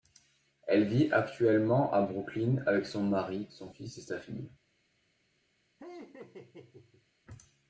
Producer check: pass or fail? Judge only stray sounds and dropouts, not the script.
fail